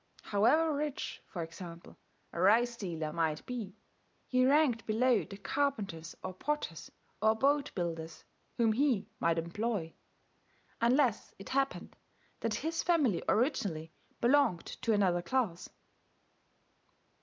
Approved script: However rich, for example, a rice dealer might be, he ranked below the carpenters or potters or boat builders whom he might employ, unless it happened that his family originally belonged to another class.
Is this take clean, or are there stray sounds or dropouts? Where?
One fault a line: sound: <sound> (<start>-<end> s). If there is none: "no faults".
no faults